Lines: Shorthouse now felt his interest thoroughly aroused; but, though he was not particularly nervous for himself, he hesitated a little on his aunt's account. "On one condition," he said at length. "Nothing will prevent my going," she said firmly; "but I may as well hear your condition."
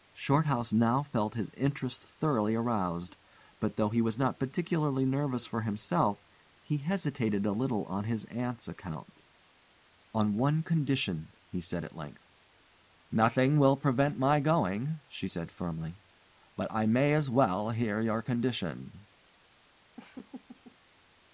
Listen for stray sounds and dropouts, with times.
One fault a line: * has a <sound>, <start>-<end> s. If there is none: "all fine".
* has a laugh, 20.0-20.8 s